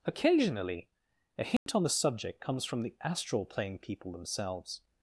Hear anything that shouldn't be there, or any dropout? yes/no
yes